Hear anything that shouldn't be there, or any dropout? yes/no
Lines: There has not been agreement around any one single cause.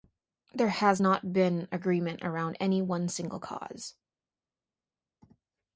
no